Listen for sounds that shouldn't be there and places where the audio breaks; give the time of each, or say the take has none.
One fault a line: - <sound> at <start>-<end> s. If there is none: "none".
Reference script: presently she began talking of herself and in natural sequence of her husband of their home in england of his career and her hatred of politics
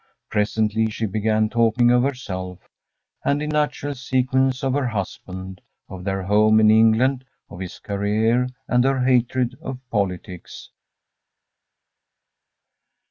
none